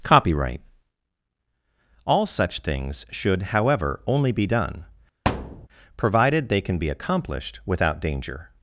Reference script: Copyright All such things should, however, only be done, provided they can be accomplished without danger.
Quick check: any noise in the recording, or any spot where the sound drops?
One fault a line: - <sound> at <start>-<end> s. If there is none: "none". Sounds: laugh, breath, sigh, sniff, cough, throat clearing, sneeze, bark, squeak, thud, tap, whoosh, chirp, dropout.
- thud at 5.2-5.7 s